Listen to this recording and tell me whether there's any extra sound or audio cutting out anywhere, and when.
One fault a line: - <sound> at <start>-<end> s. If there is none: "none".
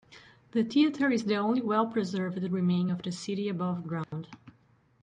- dropout at 4.0-4.1 s